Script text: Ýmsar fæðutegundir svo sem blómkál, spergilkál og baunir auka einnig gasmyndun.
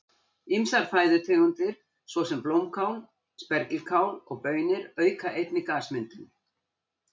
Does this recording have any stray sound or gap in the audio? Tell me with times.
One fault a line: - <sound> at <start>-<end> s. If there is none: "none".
none